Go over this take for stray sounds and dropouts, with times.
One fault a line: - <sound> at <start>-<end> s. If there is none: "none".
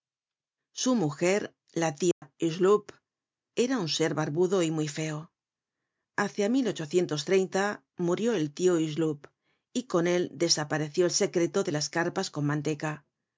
- dropout at 2.1-2.2 s